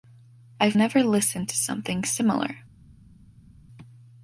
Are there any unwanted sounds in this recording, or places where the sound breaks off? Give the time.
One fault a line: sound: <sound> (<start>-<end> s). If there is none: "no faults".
no faults